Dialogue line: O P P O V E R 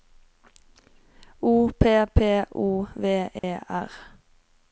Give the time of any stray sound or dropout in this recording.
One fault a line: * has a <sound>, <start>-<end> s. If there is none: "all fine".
* has a dropout, 3.4-3.4 s